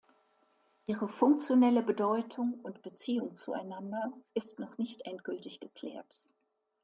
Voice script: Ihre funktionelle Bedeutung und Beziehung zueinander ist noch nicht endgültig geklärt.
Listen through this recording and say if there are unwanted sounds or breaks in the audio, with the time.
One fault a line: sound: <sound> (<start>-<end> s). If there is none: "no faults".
no faults